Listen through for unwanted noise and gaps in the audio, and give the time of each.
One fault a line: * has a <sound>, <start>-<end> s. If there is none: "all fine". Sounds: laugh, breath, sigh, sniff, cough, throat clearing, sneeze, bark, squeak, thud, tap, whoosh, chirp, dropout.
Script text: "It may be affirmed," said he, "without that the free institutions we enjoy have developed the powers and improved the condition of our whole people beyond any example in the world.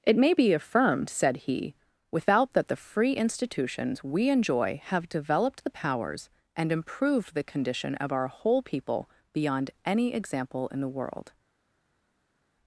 all fine